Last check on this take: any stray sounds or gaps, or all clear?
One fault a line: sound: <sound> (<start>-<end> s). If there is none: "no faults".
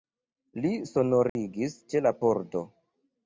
sound: dropout (1.3-1.4 s)